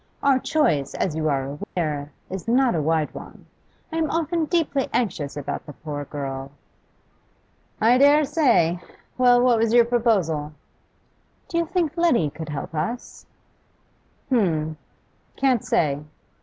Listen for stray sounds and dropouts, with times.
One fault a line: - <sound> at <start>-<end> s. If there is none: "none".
- dropout at 1.6-1.8 s